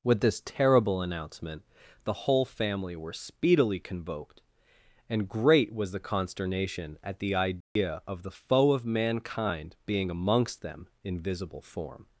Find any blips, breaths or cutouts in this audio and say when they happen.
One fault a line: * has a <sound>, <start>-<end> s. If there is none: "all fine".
* has a dropout, 7.6-7.8 s